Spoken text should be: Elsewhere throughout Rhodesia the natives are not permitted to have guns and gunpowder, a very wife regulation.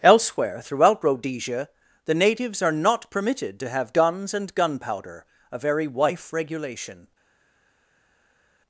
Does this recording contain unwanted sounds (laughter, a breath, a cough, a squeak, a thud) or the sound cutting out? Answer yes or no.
no